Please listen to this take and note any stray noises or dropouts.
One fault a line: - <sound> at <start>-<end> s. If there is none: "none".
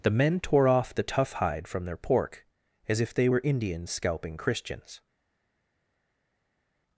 none